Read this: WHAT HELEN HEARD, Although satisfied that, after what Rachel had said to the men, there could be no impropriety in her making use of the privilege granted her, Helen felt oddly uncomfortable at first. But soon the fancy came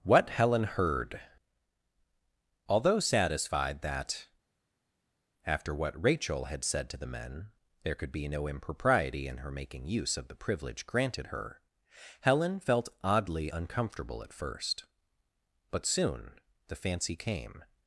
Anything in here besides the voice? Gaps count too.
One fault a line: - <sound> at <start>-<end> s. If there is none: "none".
none